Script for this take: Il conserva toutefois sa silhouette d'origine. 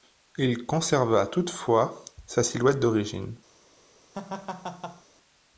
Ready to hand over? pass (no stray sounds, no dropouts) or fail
fail